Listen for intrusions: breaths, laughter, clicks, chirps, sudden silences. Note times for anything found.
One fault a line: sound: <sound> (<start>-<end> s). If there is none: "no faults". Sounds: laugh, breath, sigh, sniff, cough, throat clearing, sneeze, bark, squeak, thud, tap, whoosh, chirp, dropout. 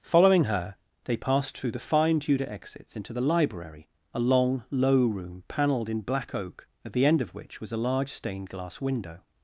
no faults